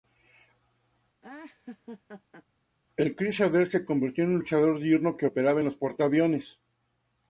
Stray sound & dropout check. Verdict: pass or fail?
fail